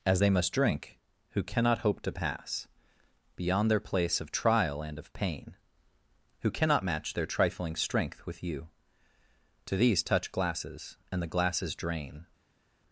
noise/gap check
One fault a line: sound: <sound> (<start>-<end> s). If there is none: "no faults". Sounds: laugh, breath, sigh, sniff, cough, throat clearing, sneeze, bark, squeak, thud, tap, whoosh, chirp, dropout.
no faults